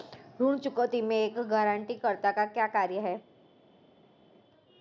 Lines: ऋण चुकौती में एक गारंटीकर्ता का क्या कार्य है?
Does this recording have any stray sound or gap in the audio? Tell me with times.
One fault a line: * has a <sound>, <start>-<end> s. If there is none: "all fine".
all fine